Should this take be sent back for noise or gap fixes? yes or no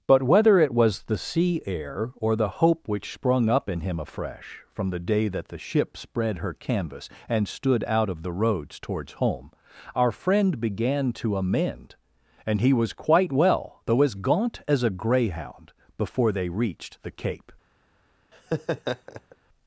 yes